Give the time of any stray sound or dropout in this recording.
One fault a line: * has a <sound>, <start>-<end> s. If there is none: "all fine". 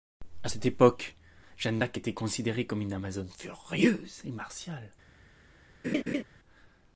* has a laugh, 5.8-6.2 s